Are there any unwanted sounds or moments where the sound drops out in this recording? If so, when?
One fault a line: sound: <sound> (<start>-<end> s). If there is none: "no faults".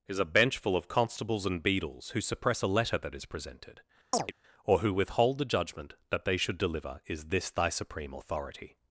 sound: chirp (4.1-4.3 s)